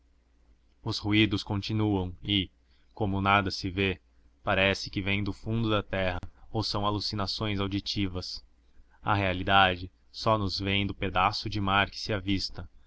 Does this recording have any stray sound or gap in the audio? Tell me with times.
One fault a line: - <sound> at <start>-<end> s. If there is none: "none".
- dropout at 6.2-6.2 s